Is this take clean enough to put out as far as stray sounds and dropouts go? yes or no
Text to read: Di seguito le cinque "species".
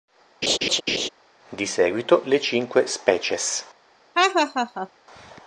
no